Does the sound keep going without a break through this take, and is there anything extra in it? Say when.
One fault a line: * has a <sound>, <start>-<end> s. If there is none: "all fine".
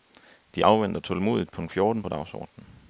all fine